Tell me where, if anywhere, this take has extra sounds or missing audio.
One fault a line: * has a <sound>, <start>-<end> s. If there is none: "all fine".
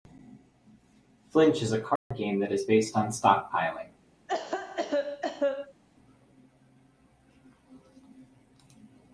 * has a dropout, 2.0-2.1 s
* has a cough, 4.3-5.8 s